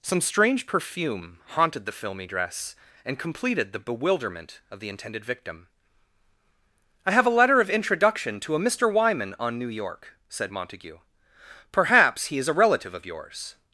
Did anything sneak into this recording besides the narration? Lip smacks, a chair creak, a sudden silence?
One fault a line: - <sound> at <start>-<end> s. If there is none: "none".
none